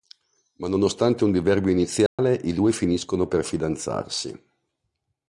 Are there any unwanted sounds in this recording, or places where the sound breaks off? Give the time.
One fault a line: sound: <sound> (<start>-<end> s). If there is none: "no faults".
sound: dropout (2.1-2.2 s)